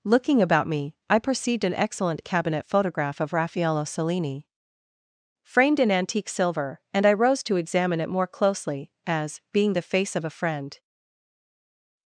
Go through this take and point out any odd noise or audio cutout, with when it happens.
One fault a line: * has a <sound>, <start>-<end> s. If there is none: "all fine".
all fine